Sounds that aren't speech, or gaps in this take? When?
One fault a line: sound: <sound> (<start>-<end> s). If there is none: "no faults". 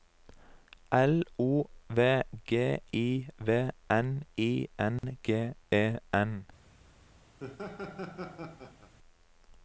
sound: dropout (5.0-5.0 s)
sound: laugh (7.4-8.9 s)